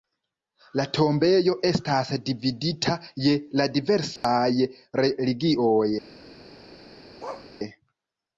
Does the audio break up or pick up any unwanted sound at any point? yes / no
yes